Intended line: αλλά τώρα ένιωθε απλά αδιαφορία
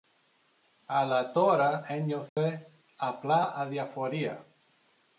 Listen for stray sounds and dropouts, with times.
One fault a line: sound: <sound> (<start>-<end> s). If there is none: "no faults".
sound: dropout (2.3-2.4 s)